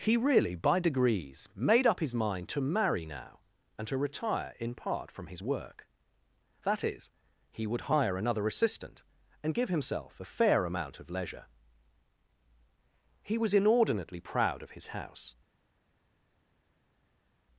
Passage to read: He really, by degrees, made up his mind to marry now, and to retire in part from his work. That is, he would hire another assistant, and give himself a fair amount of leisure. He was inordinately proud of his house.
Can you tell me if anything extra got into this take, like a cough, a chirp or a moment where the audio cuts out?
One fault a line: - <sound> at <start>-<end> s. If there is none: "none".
none